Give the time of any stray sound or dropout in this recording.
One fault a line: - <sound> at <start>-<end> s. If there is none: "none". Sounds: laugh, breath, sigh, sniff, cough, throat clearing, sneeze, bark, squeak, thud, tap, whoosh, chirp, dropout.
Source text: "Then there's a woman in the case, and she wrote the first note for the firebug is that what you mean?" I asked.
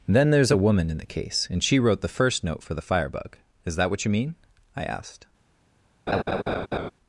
- laugh at 6.1-6.9 s